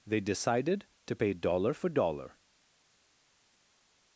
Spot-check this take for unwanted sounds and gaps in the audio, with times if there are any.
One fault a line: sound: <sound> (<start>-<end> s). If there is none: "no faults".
no faults